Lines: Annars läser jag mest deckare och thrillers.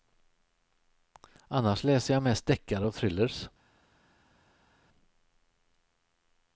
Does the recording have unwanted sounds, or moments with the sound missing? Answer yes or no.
no